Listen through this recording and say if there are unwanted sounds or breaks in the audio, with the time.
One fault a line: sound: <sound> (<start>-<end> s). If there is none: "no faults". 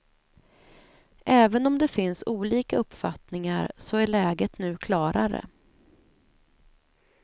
no faults